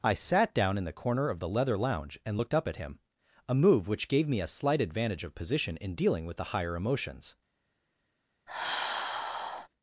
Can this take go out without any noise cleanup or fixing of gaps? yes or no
no